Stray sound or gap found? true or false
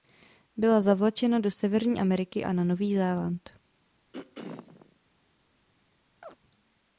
true